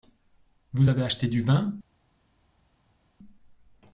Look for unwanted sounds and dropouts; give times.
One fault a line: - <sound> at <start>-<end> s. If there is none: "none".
none